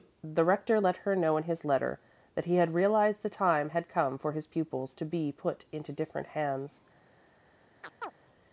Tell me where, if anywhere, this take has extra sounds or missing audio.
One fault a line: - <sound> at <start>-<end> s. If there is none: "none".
- chirp at 7.8-8.1 s